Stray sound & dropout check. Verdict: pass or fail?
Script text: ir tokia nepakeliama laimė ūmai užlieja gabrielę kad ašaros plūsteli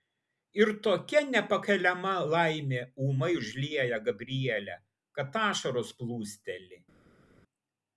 pass